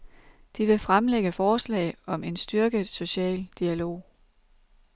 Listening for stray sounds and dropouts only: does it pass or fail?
pass